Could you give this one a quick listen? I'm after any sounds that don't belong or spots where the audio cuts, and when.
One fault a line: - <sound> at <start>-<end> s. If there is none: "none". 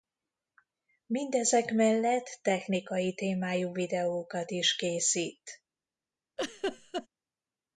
- laugh at 6.4-7.1 s